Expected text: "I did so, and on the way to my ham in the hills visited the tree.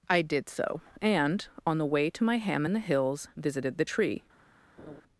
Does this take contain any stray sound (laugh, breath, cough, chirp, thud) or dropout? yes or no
yes